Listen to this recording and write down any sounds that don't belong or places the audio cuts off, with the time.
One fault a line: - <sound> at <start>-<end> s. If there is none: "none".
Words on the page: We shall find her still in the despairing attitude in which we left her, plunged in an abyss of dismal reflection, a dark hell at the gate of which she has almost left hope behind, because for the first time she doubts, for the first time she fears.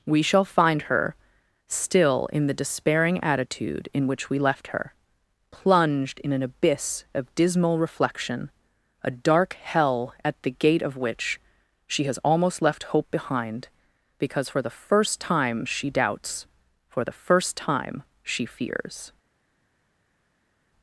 none